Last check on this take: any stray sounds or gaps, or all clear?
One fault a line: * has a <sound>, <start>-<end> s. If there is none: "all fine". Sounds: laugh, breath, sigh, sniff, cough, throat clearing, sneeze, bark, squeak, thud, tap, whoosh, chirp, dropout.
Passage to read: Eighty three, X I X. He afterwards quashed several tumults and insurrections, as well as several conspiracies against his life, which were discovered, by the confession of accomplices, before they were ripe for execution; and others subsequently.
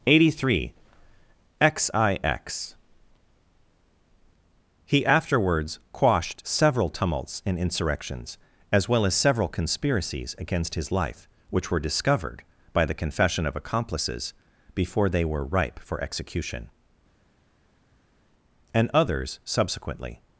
all fine